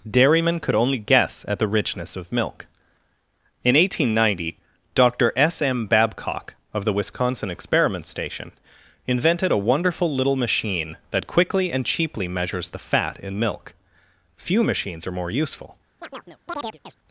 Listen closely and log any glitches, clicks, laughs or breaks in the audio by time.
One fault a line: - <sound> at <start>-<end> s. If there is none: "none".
- chirp at 16.0-17.0 s